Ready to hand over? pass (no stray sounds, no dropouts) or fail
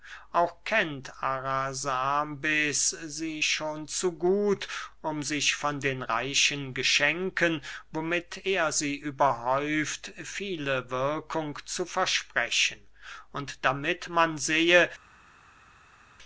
pass